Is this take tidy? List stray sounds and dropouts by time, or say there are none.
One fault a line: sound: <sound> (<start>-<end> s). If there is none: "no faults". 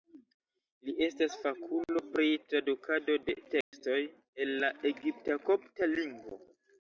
sound: dropout (3.6-3.7 s)